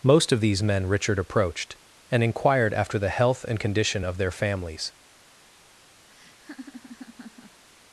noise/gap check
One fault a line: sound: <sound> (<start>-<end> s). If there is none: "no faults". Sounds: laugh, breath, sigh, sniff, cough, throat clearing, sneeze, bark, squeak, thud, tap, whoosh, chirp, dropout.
sound: laugh (6.1-7.6 s)